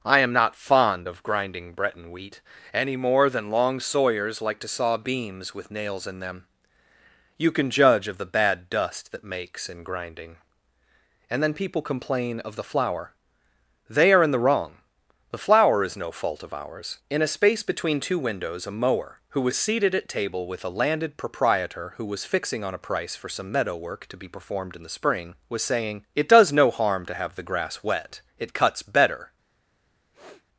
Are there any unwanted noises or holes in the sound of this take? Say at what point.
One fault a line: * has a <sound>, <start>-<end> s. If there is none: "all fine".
* has a sniff, 30.1-30.5 s